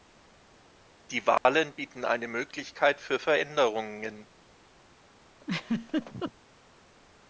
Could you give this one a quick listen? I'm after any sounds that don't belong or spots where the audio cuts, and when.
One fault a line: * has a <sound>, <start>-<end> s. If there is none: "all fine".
* has a dropout, 1.4-1.5 s
* has a laugh, 5.4-6.3 s